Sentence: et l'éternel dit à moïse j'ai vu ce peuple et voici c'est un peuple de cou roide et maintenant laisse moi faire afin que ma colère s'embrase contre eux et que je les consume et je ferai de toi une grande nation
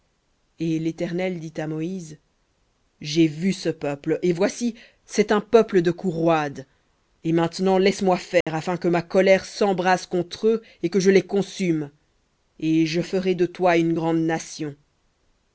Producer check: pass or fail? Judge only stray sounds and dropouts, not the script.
fail